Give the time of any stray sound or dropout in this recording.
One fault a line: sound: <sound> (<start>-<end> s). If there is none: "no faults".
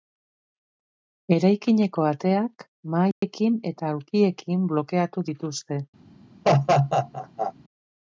sound: dropout (3.1-3.2 s)
sound: laugh (6.4-7.5 s)